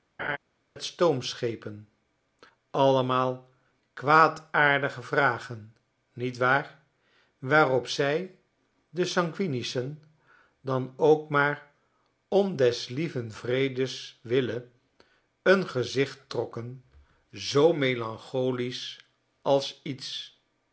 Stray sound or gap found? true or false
true